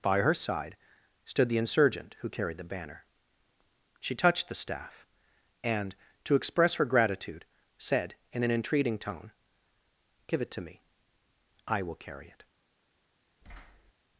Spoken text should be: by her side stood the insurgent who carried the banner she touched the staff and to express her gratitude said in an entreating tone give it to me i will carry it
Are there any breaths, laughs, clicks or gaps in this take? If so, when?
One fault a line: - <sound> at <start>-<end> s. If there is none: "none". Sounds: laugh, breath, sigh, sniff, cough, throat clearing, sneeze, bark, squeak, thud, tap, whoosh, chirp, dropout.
- thud at 13.4-13.9 s